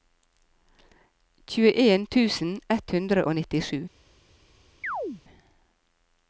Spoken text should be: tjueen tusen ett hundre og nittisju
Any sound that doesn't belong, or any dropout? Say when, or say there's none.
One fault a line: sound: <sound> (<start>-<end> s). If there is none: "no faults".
sound: chirp (4.8-5.2 s)